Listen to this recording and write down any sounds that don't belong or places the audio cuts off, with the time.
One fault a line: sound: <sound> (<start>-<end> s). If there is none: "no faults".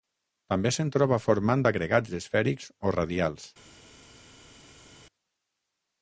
no faults